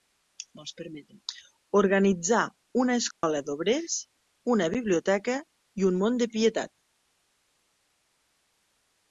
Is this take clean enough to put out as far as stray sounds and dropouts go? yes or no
no